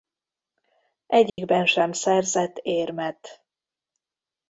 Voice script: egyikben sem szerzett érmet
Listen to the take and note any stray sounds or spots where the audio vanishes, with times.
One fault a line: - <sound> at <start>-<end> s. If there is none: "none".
- dropout at 1.3-1.4 s